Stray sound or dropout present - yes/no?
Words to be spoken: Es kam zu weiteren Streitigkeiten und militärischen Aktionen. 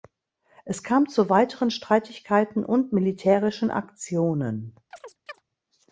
yes